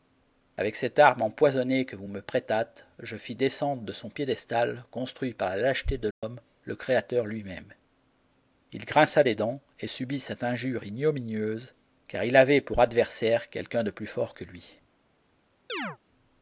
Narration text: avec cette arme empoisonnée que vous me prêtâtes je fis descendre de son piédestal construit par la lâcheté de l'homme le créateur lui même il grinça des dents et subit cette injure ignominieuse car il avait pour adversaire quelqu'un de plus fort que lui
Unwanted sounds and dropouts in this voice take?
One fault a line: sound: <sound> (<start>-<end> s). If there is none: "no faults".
sound: dropout (6.1-6.2 s)
sound: chirp (15.7-16.0 s)